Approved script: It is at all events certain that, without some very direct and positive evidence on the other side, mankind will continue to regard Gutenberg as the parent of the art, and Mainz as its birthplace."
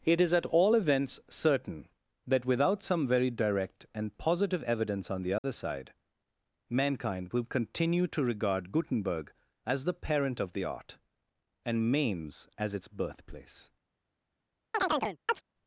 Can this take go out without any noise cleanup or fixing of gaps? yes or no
no